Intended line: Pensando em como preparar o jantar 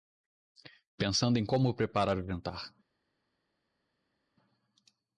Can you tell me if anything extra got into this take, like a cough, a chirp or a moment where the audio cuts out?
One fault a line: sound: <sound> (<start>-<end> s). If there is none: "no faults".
no faults